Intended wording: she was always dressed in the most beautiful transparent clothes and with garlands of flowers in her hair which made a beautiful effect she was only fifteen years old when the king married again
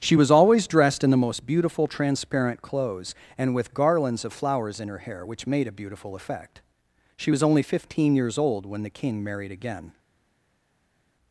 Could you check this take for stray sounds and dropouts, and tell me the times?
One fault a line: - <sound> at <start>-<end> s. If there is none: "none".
none